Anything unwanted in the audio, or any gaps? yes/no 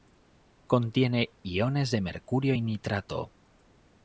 no